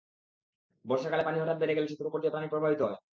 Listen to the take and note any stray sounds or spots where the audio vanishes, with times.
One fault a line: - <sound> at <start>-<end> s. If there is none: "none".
none